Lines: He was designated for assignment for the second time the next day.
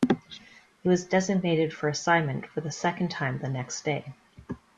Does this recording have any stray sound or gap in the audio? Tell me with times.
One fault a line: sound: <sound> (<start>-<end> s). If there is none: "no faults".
no faults